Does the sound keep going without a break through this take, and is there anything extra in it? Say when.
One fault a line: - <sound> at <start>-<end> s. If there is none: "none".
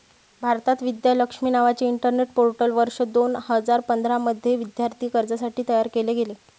none